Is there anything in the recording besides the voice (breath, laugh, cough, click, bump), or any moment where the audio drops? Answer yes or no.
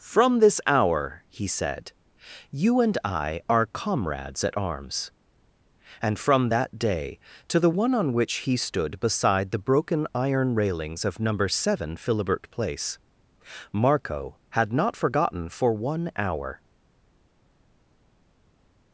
no